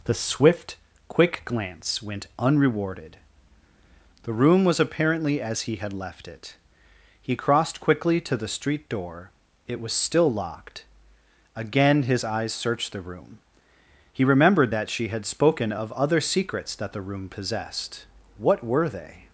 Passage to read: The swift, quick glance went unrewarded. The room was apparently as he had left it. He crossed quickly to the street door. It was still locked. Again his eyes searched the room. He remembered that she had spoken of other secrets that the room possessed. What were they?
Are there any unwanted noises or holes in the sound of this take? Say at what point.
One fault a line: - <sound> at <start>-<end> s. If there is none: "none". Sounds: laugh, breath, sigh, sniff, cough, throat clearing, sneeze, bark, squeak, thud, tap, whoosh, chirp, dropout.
none